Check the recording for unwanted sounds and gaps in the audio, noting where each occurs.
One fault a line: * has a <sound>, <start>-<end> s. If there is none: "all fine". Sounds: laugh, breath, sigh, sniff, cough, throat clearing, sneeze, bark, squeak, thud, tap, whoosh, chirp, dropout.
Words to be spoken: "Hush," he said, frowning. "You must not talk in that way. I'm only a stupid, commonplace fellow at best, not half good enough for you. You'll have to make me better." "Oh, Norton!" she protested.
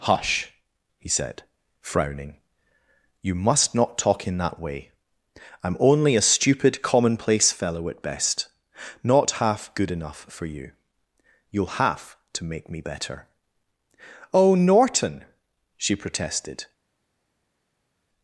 all fine